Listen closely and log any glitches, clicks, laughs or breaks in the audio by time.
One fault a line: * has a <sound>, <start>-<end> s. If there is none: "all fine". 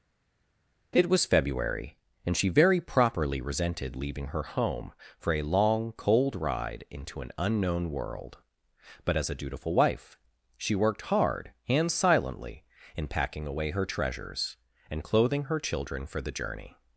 all fine